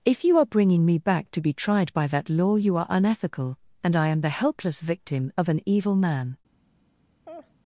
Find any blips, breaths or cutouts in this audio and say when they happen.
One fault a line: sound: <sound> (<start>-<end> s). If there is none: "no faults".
sound: laugh (7.3-7.5 s)